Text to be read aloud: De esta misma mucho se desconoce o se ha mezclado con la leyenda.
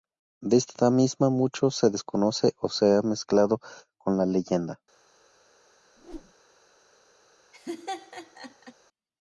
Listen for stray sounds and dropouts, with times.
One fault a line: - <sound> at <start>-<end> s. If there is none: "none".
- whoosh at 6.0-6.3 s
- laugh at 7.5-8.7 s